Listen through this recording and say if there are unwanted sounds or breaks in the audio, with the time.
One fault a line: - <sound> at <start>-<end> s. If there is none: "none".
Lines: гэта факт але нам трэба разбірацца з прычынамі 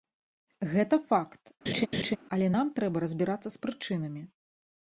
- laugh at 1.7-2.2 s